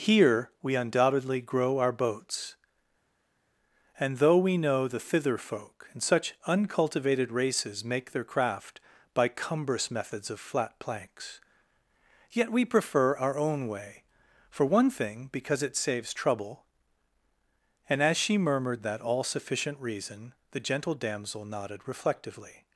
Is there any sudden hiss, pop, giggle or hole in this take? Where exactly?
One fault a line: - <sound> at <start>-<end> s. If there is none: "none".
none